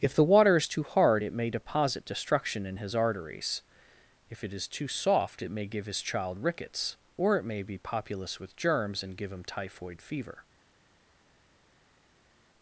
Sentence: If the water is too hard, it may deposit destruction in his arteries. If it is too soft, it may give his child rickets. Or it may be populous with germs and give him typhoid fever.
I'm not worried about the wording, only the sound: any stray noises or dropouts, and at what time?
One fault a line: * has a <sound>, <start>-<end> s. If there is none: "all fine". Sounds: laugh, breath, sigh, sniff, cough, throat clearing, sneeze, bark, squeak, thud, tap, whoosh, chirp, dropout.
all fine